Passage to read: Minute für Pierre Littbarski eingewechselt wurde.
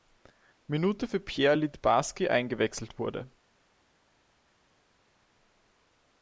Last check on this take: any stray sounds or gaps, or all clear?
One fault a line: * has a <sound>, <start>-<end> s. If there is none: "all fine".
all fine